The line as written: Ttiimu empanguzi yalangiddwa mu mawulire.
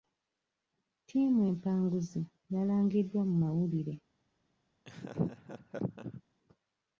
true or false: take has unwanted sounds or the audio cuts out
true